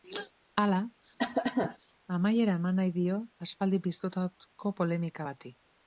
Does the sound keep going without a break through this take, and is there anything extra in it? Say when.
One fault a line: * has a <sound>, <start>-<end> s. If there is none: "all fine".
* has a cough, 1.2-1.8 s